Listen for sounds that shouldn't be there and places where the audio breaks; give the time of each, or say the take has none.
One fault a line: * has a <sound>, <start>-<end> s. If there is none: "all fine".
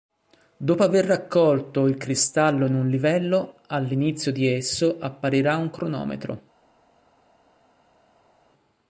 all fine